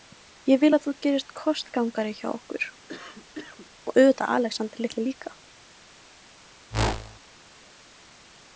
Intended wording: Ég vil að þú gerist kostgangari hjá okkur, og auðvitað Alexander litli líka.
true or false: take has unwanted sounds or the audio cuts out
true